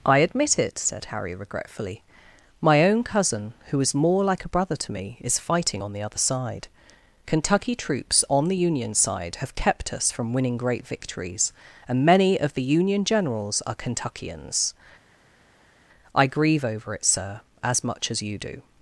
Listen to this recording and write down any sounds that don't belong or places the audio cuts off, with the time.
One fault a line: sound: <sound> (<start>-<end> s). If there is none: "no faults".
no faults